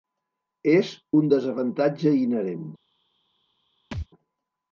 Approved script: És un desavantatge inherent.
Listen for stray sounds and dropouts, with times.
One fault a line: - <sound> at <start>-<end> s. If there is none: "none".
- thud at 3.9-4.1 s